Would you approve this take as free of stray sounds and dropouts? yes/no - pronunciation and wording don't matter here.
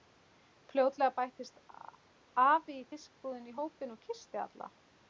yes